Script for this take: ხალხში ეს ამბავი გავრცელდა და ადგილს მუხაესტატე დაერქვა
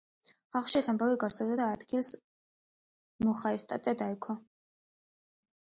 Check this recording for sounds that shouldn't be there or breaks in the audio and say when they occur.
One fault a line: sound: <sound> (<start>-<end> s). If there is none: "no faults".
no faults